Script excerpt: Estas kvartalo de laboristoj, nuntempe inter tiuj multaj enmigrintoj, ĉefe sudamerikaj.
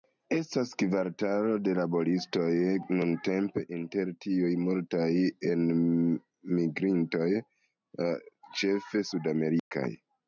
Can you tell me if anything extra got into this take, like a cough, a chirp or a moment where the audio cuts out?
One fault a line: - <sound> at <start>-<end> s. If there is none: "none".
- dropout at 9.6-9.7 s